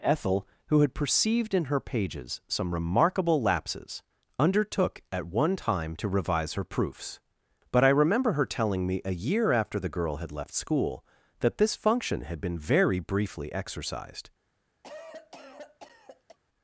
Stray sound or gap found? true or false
true